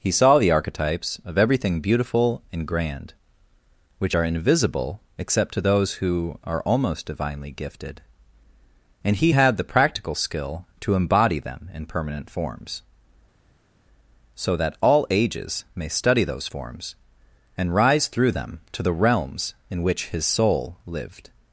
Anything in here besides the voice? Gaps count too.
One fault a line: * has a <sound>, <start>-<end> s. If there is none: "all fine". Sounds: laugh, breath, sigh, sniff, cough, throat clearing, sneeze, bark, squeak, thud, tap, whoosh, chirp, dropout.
all fine